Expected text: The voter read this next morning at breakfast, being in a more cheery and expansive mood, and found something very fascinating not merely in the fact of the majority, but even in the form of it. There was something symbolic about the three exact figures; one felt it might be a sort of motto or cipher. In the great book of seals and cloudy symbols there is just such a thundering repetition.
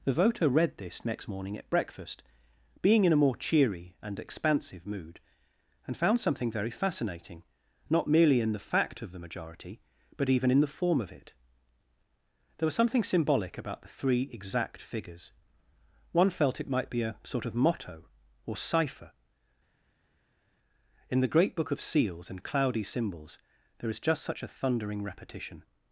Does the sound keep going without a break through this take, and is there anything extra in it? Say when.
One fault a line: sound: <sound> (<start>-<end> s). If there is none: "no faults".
no faults